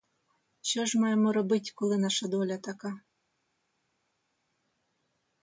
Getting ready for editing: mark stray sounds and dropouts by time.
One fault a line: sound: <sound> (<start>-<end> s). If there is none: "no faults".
no faults